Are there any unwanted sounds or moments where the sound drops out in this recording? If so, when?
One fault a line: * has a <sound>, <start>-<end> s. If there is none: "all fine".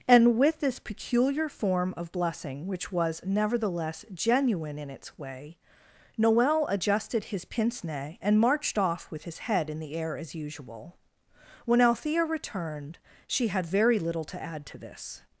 all fine